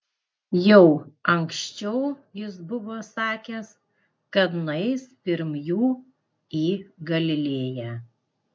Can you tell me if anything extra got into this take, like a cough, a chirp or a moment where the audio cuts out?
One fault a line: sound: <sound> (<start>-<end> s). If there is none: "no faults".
no faults